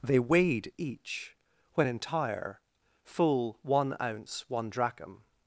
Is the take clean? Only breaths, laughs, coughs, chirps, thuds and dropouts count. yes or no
yes